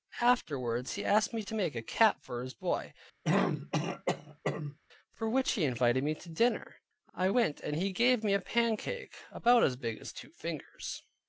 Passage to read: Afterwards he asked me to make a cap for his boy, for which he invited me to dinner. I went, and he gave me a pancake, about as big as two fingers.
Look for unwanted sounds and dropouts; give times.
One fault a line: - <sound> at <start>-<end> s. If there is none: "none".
- throat clearing at 3.2-4.8 s